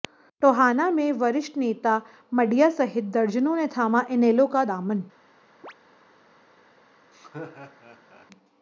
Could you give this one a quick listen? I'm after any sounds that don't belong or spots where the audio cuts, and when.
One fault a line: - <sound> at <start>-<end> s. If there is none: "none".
- chirp at 5.6-5.7 s
- laugh at 7.1-8.3 s